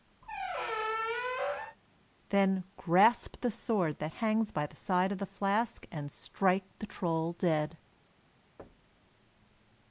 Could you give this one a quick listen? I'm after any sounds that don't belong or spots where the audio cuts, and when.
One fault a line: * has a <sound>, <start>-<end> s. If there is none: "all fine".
* has a squeak, 0.2-1.8 s
* has a thud, 8.6-9.1 s